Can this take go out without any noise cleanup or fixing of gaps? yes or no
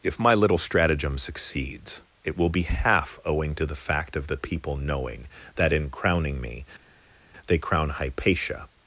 yes